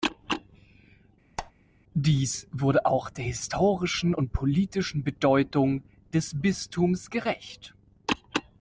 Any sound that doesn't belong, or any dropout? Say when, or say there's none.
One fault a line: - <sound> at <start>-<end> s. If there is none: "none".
- squeak at 1.4-1.5 s